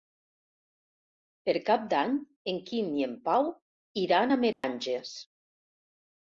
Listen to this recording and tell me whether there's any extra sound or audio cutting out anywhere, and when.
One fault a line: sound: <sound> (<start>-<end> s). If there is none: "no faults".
sound: dropout (4.5-4.6 s)